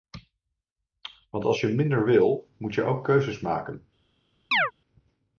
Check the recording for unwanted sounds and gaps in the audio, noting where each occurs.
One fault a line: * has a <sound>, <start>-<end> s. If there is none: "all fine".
* has a chirp, 4.5-4.7 s